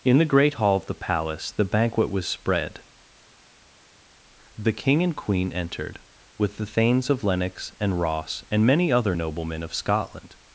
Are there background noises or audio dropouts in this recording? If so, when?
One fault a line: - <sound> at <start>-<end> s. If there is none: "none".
none